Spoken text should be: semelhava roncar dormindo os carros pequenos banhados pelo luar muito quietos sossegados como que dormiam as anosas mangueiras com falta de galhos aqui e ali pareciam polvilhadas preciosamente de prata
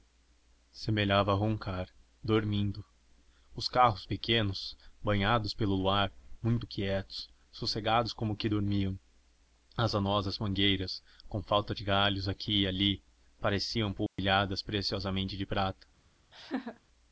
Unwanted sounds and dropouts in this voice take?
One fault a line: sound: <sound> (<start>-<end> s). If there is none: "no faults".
sound: dropout (14.1-14.2 s)
sound: laugh (16.3-16.8 s)